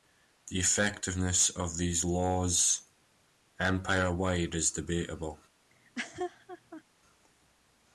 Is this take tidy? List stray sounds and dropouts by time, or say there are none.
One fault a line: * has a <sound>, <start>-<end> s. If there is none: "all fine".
* has a laugh, 5.7-6.8 s